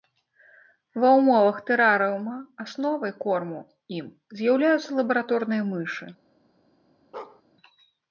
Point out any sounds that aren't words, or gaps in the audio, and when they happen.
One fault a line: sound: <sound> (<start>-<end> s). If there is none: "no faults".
sound: bark (7.1-7.4 s)